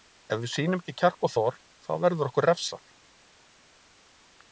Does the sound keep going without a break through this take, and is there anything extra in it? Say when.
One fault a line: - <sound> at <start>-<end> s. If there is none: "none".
none